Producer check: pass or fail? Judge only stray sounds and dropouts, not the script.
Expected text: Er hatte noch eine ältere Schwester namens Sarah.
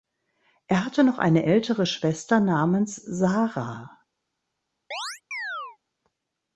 fail